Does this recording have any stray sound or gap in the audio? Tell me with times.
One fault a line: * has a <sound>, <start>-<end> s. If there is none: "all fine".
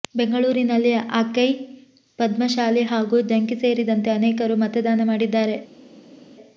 all fine